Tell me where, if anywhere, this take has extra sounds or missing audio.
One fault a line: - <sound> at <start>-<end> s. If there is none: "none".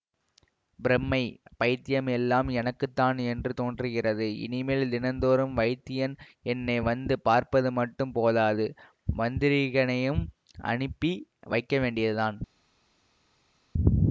none